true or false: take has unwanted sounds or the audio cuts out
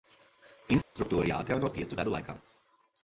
true